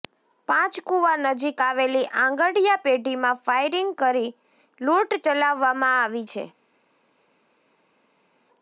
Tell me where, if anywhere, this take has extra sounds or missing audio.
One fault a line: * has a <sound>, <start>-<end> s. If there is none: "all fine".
all fine